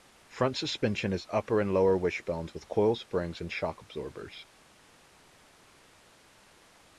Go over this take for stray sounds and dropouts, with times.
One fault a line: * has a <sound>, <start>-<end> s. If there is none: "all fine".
all fine